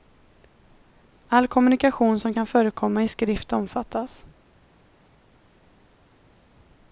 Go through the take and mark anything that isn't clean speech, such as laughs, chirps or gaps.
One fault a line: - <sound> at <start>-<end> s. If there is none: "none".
none